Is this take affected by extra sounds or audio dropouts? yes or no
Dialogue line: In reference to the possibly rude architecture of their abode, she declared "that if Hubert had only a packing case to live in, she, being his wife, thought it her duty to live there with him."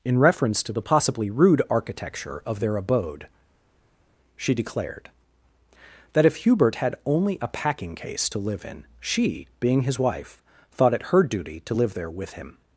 no